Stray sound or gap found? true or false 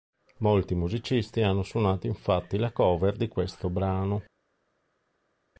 false